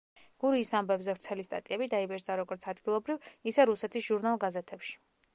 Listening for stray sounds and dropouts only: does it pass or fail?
pass